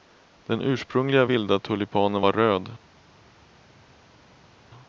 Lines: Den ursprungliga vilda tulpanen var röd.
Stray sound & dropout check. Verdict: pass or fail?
pass